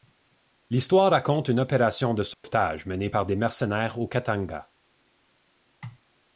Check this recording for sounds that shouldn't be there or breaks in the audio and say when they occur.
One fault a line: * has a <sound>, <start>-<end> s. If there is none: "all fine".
* has a dropout, 2.3-2.4 s